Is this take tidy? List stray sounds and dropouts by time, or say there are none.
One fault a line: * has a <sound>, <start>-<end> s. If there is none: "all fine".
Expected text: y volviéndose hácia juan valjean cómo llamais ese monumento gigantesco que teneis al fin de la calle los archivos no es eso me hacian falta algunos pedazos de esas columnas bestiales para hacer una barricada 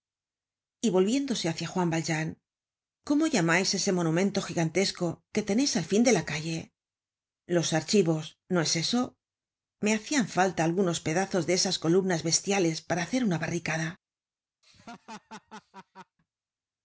* has a laugh, 14.6-16.2 s